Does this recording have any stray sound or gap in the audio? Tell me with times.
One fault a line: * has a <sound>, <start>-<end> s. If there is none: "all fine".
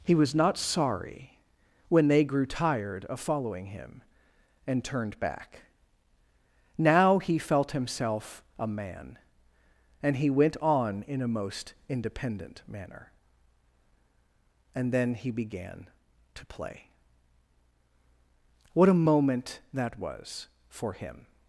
all fine